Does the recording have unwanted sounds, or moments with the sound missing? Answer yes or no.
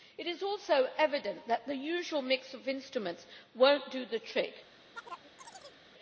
yes